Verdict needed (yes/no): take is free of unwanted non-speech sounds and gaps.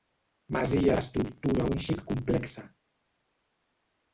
yes